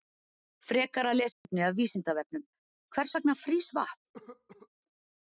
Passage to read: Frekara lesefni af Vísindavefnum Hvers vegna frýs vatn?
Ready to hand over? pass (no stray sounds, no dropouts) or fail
fail